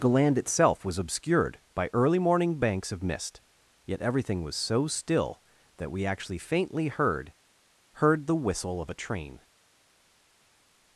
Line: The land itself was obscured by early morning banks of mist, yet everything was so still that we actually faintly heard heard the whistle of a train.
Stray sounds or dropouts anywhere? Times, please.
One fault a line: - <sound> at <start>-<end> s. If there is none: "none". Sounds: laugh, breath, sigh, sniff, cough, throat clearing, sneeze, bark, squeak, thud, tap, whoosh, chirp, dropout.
none